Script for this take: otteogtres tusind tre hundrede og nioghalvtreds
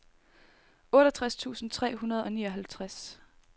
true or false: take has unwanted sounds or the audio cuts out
false